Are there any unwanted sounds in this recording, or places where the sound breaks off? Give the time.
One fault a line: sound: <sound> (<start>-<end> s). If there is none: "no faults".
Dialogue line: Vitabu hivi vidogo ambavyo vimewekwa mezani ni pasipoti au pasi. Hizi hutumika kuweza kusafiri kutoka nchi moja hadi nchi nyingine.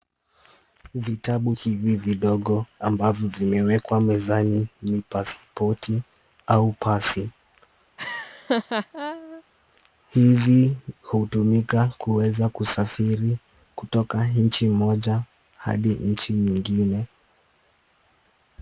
sound: laugh (8.0-9.4 s)